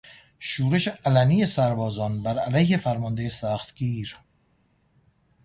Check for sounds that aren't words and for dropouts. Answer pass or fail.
pass